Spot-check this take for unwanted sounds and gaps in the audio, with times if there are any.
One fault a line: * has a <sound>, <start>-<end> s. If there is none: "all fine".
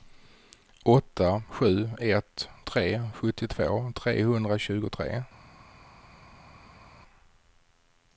all fine